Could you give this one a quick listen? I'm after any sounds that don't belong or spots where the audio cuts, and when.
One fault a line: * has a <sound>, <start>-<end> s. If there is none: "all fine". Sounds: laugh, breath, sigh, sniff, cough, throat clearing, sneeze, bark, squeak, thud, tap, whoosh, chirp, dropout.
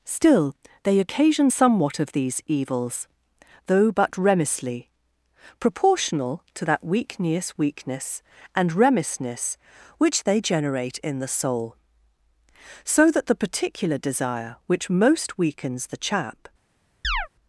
* has a chirp, 17.0-17.3 s